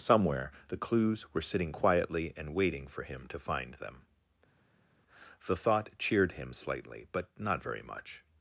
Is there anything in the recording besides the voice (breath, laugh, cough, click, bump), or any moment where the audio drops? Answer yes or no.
no